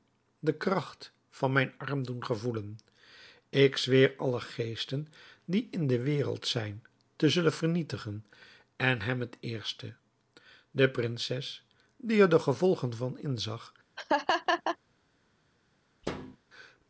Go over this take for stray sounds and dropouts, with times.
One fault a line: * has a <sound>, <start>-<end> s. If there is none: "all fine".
* has a laugh, 14.0-14.8 s
* has a thud, 16.0-16.4 s